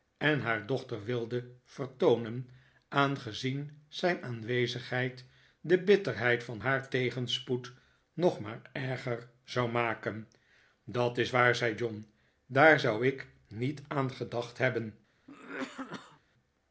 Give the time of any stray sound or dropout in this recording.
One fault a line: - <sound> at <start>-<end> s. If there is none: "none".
- cough at 15.3-16.2 s